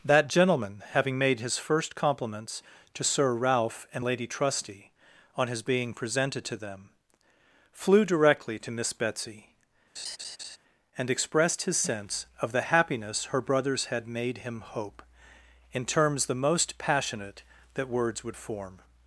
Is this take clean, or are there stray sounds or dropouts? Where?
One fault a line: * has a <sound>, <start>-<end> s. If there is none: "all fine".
* has a laugh, 10.0-10.6 s